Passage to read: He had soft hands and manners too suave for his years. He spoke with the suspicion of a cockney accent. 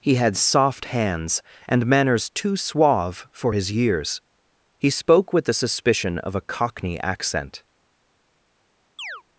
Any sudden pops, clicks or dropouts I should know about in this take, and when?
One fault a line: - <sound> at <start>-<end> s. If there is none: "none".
- chirp at 9.0-9.2 s